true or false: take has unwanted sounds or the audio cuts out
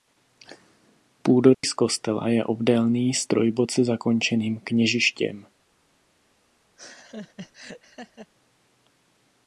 true